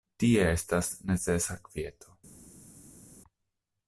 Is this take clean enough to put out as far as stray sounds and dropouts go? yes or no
yes